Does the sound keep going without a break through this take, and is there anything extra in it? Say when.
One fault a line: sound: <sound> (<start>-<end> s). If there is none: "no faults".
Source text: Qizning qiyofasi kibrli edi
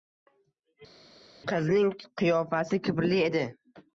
no faults